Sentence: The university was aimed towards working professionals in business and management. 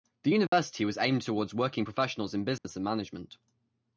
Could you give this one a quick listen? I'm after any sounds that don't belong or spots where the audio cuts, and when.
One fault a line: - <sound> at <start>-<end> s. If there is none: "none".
- dropout at 0.5-0.5 s
- dropout at 2.6-2.6 s